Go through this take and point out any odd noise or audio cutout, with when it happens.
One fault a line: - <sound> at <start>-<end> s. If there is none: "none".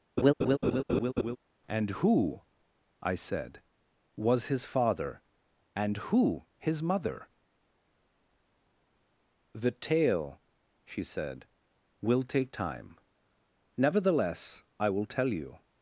- laugh at 0.2-1.4 s